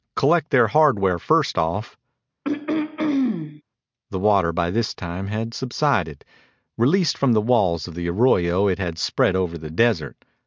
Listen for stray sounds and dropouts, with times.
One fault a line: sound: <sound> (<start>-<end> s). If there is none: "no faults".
sound: throat clearing (2.4-3.6 s)